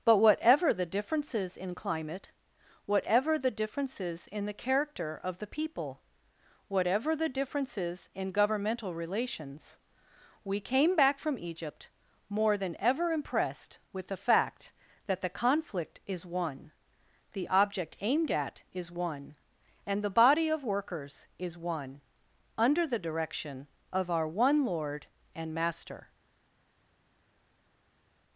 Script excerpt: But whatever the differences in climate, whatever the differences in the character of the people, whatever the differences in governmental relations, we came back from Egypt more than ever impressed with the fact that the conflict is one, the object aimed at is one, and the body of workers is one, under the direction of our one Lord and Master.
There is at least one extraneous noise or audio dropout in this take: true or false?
false